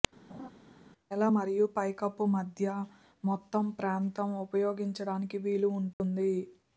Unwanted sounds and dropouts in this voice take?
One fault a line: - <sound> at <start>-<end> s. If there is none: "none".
- laugh at 0.3-0.5 s
- dropout at 5.9-6.0 s